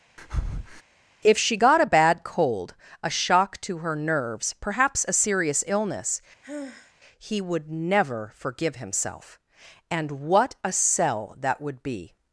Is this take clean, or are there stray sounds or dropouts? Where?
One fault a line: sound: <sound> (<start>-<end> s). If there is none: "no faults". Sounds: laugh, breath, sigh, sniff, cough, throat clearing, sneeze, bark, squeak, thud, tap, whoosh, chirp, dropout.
sound: breath (0.2-0.8 s)
sound: sigh (6.4-6.9 s)